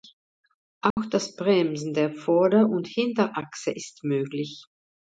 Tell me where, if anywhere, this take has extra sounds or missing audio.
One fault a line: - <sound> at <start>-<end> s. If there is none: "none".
- dropout at 0.9-1.0 s